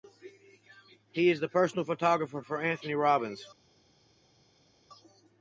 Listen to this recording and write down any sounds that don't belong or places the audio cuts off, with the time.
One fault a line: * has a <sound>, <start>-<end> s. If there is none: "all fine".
all fine